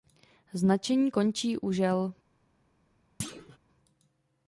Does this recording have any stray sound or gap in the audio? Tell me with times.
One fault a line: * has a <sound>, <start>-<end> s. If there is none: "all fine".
* has a thud, 3.2-3.6 s